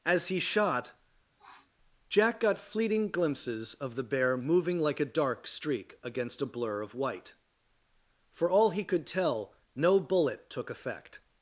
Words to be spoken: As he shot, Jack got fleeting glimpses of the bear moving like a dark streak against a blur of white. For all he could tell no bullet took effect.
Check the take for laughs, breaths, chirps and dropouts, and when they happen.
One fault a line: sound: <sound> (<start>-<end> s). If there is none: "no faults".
sound: sniff (1.4-1.7 s)